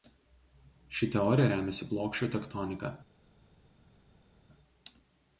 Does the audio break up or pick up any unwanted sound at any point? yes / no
no